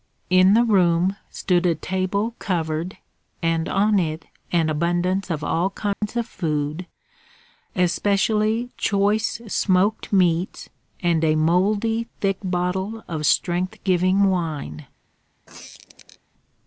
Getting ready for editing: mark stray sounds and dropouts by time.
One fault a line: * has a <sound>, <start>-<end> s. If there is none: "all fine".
* has a dropout, 5.9-6.0 s
* has a squeak, 15.5-16.2 s